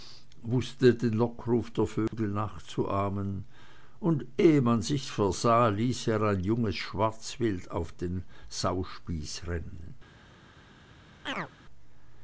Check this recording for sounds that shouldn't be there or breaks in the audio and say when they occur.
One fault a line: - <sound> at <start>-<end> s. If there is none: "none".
- dropout at 2.1-2.1 s
- chirp at 11.3-11.5 s